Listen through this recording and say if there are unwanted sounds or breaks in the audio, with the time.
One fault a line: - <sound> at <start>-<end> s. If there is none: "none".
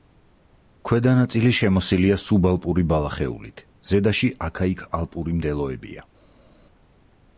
none